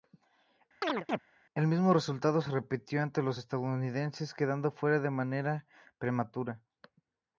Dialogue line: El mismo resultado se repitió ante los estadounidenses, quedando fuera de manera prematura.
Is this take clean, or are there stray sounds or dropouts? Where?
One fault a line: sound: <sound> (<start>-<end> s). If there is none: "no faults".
sound: chirp (0.8-1.2 s)